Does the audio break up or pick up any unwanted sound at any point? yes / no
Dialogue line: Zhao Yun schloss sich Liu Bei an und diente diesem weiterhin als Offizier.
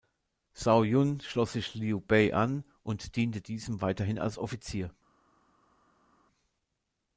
no